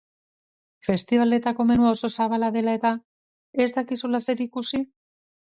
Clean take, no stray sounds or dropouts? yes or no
yes